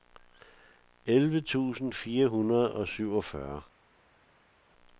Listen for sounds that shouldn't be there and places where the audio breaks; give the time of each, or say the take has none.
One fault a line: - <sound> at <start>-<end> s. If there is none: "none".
none